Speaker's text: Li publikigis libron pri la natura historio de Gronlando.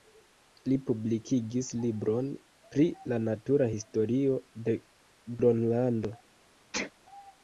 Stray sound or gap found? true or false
true